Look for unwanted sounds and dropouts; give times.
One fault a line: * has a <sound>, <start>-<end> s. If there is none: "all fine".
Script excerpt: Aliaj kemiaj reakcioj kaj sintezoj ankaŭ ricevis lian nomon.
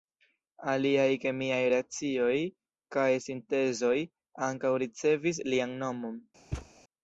* has a thud, 6.5-6.7 s